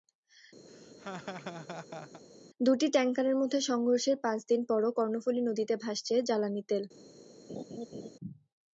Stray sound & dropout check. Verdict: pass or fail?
fail